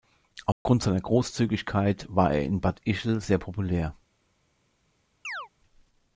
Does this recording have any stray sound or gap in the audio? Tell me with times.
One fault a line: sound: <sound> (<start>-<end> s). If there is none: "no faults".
sound: dropout (0.5-0.7 s)
sound: chirp (5.2-5.5 s)